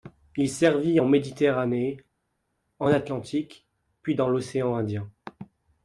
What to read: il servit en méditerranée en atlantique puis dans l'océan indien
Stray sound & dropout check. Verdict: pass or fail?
pass